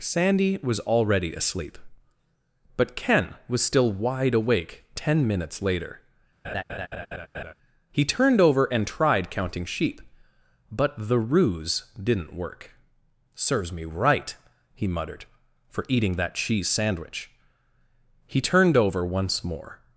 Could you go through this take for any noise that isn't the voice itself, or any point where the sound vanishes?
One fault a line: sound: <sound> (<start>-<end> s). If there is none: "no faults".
sound: laugh (6.4-7.5 s)